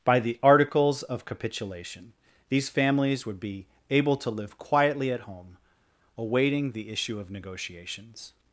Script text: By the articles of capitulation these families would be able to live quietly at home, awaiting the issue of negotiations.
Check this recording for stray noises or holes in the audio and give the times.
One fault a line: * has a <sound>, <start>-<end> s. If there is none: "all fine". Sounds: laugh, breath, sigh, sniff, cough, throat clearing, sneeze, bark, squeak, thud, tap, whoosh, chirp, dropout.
all fine